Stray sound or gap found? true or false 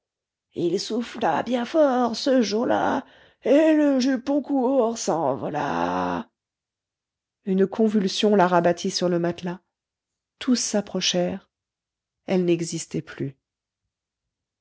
false